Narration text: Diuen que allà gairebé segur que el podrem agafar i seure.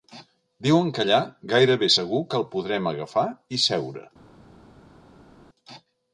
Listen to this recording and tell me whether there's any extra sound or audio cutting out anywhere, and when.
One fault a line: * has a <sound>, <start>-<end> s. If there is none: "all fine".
all fine